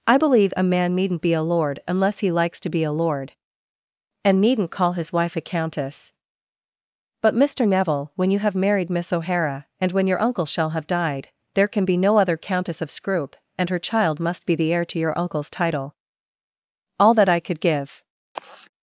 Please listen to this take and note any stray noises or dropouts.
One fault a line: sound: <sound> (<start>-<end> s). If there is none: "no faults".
sound: sigh (18.3-18.7 s)